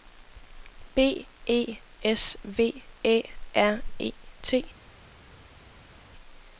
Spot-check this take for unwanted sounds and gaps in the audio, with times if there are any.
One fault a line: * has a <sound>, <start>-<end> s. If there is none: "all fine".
all fine